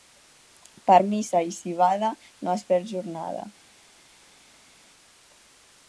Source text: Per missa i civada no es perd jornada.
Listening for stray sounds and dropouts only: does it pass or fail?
pass